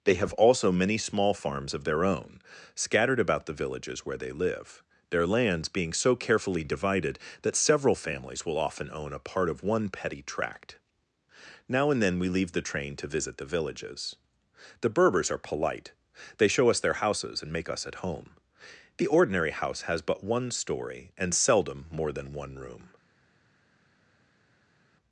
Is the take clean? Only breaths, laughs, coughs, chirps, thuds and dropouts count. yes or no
yes